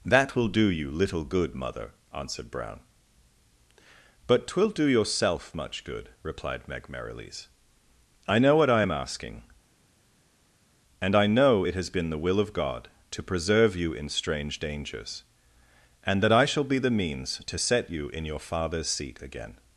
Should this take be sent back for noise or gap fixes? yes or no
no